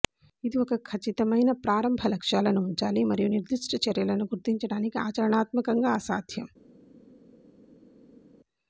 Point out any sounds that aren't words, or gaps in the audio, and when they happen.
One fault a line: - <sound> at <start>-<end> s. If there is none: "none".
none